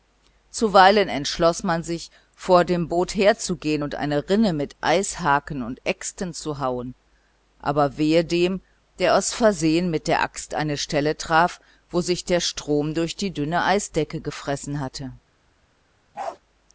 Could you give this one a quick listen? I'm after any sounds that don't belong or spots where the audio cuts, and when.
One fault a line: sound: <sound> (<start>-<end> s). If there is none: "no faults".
sound: bark (16.1-16.4 s)